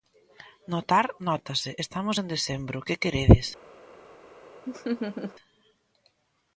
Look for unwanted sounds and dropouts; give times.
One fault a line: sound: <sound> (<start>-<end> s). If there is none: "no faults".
sound: laugh (4.7-5.3 s)